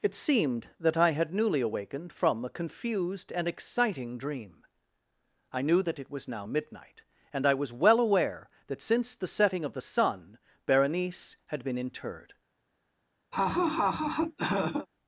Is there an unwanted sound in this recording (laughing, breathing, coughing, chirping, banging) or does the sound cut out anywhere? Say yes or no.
yes